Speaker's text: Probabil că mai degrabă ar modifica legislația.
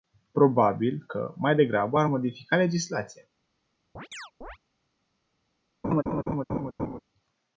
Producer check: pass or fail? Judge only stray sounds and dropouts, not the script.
fail